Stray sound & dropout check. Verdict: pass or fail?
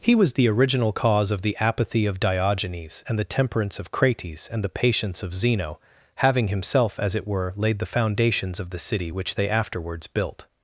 pass